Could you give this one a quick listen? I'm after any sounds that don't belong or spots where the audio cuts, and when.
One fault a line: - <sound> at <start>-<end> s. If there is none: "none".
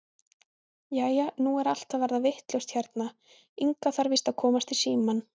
none